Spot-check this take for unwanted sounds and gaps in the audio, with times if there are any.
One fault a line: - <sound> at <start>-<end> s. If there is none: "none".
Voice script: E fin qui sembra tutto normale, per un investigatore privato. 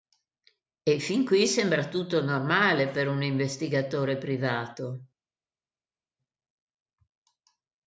none